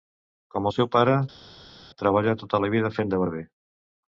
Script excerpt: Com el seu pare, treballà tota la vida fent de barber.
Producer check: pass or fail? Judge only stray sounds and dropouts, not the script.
pass